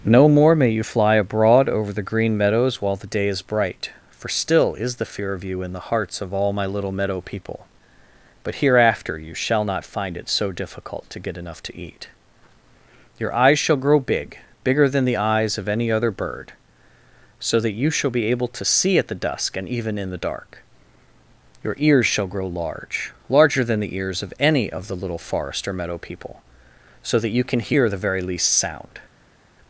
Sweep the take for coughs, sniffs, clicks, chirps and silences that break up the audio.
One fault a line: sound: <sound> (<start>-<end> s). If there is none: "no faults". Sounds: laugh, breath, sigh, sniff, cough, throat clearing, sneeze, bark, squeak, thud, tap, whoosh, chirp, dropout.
no faults